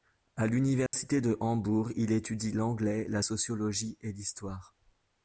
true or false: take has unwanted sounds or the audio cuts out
true